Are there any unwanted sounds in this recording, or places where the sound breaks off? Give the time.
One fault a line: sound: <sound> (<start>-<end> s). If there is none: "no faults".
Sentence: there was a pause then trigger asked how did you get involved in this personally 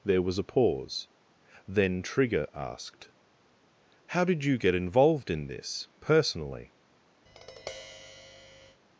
sound: tap (7.3-8.8 s)